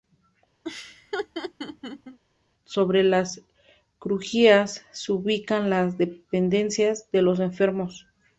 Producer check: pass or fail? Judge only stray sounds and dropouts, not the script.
fail